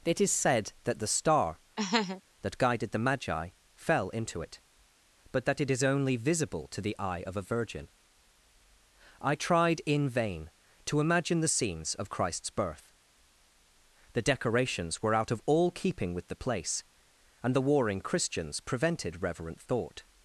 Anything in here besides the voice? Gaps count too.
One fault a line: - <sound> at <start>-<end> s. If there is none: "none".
- laugh at 1.8-2.2 s